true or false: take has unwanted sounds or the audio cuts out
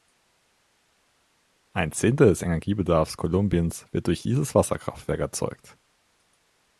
false